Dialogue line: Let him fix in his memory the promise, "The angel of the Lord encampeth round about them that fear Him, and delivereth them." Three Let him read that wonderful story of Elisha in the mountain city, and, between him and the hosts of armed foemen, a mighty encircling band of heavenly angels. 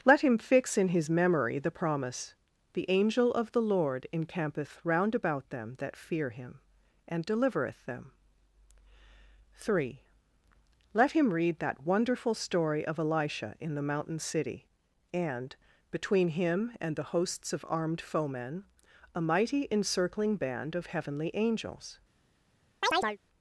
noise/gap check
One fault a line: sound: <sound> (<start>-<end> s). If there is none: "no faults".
sound: chirp (22.8-23.2 s)